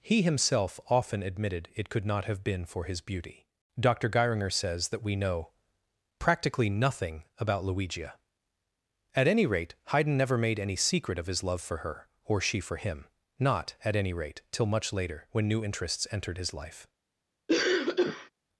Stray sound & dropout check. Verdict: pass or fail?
fail